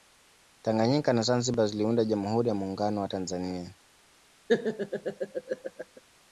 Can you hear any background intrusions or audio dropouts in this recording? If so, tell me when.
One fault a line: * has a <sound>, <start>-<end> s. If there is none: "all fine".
* has a laugh, 4.5-6.0 s